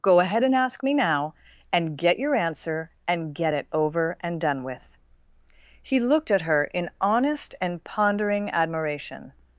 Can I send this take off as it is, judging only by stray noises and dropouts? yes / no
yes